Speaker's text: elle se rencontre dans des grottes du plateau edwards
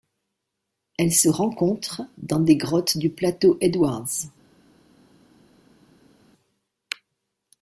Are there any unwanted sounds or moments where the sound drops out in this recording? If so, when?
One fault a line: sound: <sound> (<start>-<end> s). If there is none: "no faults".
no faults